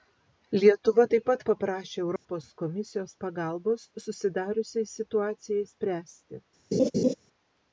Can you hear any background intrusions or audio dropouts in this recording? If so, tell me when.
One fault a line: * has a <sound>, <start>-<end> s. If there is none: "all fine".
* has a dropout, 2.2-2.3 s
* has a laugh, 6.7-7.1 s